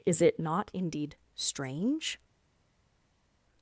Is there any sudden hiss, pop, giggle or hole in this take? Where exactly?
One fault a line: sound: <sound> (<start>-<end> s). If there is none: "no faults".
no faults